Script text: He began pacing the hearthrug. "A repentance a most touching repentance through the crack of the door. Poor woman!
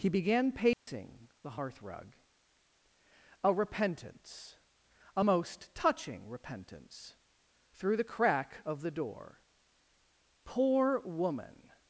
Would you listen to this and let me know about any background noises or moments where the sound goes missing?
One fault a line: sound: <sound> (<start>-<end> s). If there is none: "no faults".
sound: dropout (0.7-0.9 s)